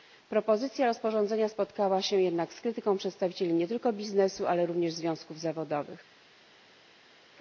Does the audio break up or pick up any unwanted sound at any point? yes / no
no